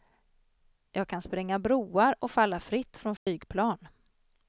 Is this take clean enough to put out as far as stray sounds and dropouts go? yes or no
no